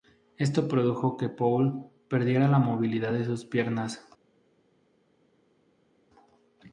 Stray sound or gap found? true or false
false